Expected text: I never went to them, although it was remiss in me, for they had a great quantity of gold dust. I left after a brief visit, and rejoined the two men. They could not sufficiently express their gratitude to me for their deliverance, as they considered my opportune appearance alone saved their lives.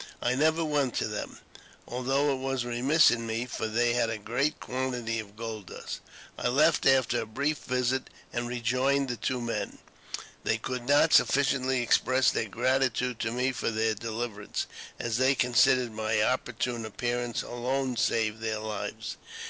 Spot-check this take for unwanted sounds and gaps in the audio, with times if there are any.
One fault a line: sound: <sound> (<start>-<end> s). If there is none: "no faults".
no faults